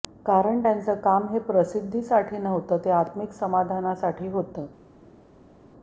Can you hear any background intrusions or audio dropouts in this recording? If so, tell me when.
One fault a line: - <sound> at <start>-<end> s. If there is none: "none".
none